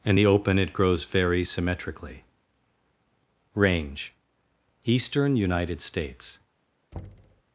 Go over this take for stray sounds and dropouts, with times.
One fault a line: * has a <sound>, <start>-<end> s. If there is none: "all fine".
* has a thud, 6.9-7.4 s